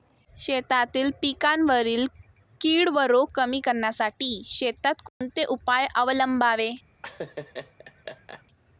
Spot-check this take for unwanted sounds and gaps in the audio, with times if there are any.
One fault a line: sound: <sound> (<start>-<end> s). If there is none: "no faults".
sound: dropout (5.1-5.2 s)
sound: laugh (7.0-8.4 s)